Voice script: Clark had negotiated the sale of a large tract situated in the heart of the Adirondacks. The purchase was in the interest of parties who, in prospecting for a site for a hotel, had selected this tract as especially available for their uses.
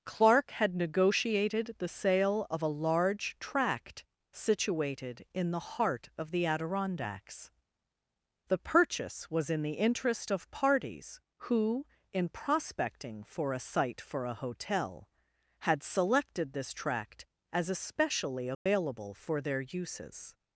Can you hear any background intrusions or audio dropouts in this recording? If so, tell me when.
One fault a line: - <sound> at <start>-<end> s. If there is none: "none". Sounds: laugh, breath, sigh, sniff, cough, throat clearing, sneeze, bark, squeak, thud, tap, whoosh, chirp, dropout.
- dropout at 18.5-18.7 s